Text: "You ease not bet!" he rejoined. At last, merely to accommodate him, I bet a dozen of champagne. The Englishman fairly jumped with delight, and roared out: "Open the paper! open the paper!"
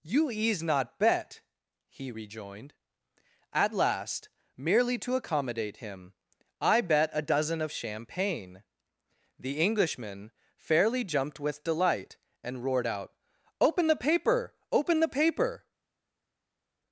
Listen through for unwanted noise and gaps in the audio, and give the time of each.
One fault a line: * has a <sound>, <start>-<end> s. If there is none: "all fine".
all fine